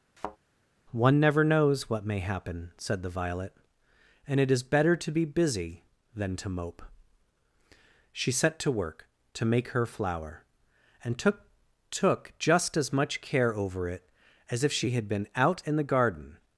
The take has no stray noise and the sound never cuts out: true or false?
false